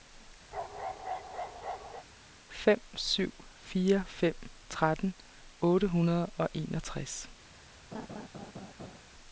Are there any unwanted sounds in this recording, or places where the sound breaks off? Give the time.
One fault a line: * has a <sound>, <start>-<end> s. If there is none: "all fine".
* has a bark, 0.5-2.1 s
* has a laugh, 7.9-9.0 s